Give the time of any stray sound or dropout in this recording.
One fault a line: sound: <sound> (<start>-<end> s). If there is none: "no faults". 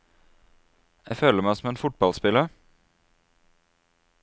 no faults